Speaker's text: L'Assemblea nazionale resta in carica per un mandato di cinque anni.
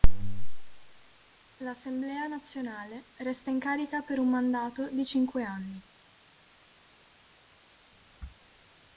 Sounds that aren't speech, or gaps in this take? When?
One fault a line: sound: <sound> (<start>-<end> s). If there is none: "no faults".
no faults